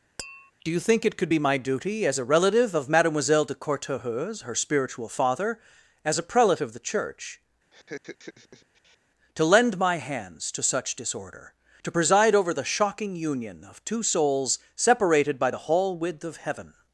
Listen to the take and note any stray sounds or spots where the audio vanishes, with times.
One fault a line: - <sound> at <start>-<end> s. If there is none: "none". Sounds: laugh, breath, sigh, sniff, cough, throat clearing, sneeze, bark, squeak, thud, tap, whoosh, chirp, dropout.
- tap at 0.2-0.5 s
- laugh at 7.7-9.0 s